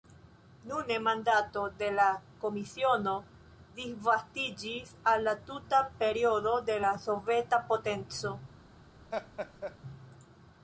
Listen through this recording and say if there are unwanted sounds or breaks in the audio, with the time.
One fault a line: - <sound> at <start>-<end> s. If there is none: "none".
- laugh at 9.1-9.8 s